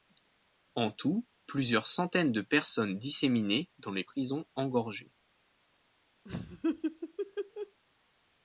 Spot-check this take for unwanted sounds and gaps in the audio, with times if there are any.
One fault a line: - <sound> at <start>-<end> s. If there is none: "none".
- laugh at 6.2-7.8 s